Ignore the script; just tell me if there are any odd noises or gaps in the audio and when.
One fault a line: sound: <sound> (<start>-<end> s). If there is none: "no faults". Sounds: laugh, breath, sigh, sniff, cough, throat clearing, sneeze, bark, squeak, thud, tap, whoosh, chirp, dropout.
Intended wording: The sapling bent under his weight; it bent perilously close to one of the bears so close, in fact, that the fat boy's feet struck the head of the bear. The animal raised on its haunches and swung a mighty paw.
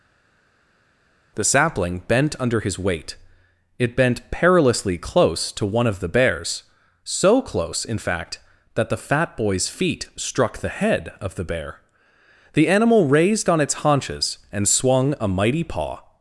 no faults